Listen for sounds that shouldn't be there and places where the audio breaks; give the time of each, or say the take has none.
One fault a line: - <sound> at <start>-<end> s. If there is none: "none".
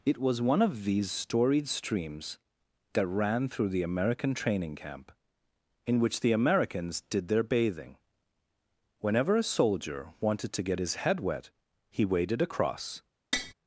- tap at 13.3-13.5 s